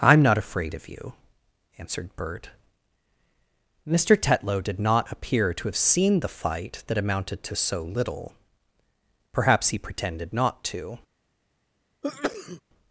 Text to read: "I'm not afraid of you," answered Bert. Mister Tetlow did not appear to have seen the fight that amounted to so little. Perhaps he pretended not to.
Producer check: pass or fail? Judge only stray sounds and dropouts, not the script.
fail